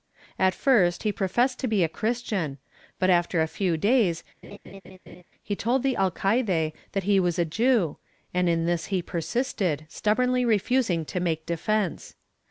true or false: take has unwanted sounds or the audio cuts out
true